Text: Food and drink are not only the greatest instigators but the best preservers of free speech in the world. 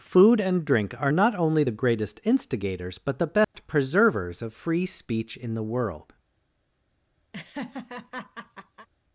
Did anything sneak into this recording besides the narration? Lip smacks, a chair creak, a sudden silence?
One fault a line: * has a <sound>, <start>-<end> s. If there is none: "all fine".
* has a dropout, 3.4-3.5 s
* has a laugh, 7.3-8.9 s